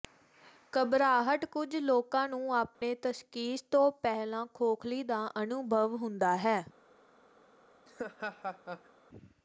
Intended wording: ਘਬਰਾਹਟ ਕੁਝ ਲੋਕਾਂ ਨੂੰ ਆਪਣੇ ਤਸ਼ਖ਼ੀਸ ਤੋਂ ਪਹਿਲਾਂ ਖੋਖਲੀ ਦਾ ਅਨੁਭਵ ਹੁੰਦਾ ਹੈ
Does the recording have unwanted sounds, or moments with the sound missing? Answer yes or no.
yes